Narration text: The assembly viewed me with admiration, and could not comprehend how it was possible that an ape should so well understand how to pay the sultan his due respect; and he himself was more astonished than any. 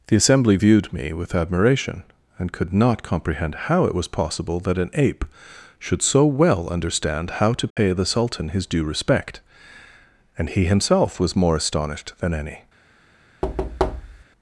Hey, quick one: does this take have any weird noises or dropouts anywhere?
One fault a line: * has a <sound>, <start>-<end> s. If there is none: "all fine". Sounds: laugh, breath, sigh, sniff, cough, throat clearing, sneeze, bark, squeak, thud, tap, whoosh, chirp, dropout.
* has a dropout, 7.7-7.8 s
* has a thud, 13.4-14.2 s